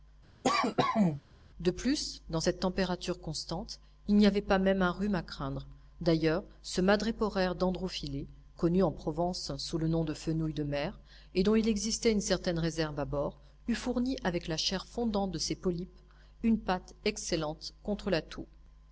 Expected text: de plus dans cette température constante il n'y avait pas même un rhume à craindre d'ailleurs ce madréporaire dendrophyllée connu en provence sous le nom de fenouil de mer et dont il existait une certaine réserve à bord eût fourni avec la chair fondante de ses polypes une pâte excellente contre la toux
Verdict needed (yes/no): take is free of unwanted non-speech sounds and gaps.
no